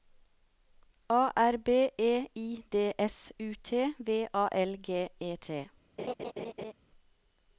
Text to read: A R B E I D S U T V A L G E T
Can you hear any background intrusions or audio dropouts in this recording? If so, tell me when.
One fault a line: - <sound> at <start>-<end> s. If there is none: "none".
- laugh at 6.0-6.7 s